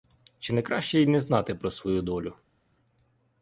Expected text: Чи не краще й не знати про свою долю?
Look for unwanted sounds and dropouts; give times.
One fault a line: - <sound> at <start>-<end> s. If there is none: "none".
none